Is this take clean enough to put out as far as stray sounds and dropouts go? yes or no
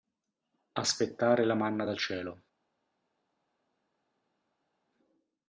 yes